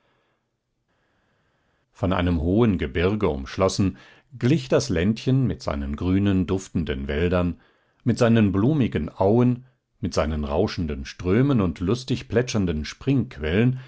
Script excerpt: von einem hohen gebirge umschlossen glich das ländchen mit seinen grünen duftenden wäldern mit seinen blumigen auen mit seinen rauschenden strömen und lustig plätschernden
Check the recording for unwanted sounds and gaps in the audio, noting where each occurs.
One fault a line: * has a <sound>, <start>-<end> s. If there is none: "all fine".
all fine